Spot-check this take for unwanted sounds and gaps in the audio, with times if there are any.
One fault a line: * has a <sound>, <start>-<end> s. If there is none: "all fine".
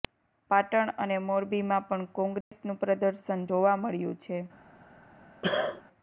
* has a dropout, 2.4-2.5 s
* has a cough, 5.4-5.8 s